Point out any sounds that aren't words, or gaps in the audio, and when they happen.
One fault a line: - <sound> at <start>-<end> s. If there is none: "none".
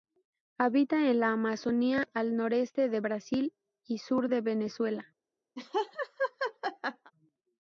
- laugh at 5.6-7.1 s